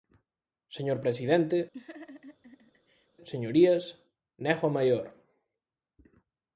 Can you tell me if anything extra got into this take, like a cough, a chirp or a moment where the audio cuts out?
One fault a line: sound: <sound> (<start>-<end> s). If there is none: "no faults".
sound: laugh (1.7-3.1 s)